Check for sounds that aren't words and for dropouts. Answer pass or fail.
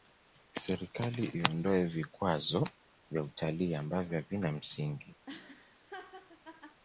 fail